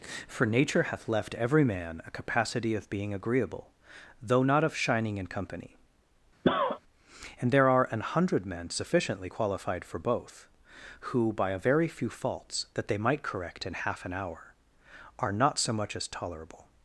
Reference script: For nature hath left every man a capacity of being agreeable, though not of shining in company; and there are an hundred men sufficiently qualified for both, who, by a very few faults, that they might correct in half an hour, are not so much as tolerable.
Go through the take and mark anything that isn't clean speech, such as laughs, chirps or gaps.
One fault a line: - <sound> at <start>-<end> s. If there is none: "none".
- cough at 6.4-6.8 s